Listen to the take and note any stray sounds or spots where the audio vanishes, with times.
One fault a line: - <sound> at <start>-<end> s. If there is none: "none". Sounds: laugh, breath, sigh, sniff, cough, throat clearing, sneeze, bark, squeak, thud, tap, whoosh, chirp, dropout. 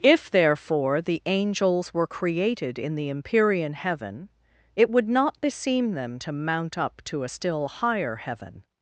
none